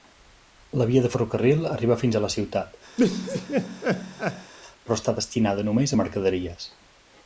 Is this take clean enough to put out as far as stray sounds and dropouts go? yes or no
no